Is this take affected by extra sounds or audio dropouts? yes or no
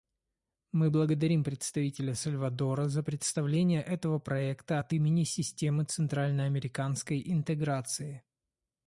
no